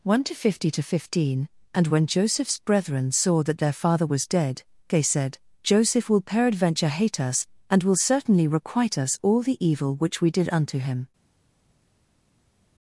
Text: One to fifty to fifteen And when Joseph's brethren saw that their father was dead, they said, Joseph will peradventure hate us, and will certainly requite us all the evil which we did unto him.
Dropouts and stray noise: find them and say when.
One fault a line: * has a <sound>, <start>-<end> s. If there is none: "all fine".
all fine